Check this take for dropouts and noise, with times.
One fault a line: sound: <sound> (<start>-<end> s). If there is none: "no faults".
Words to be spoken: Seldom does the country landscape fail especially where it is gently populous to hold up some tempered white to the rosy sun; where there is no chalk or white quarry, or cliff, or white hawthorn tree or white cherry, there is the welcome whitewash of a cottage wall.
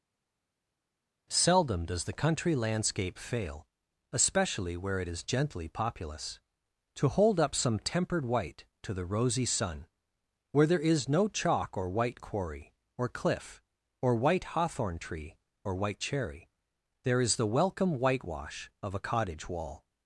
no faults